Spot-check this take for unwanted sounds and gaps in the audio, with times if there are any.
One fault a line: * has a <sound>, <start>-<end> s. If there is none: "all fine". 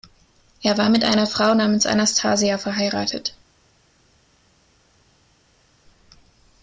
all fine